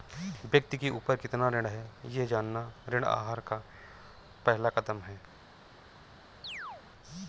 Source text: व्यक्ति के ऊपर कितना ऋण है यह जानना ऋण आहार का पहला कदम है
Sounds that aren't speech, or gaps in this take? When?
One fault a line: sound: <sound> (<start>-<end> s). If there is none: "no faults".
sound: chirp (6.4-6.9 s)